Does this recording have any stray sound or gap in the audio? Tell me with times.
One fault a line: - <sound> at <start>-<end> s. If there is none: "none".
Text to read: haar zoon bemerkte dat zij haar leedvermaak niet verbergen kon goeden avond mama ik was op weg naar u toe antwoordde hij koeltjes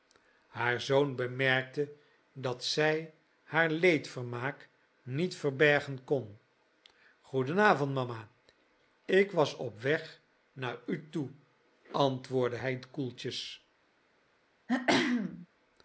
- throat clearing at 14.7-15.5 s